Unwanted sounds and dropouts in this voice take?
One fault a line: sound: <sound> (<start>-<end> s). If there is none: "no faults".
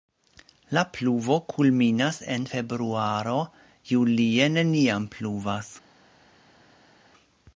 no faults